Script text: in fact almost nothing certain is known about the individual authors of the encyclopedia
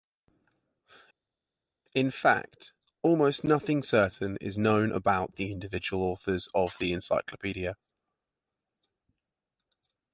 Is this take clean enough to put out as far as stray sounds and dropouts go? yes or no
yes